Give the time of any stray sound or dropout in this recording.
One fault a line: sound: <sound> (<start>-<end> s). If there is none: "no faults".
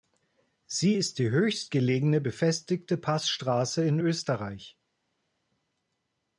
no faults